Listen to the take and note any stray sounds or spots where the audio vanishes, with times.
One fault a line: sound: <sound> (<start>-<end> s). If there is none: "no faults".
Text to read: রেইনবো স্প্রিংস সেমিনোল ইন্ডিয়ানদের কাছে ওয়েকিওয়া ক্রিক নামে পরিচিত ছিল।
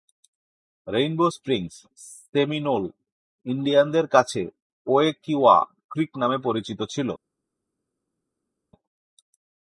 no faults